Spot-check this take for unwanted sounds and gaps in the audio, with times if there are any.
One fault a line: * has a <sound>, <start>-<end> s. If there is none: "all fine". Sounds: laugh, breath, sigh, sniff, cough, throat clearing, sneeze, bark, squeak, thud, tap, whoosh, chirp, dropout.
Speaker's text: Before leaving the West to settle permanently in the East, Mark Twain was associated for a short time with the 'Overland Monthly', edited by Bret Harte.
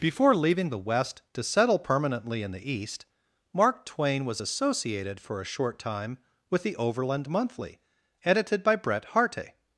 all fine